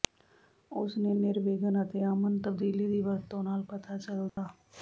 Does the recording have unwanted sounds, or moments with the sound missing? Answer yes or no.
yes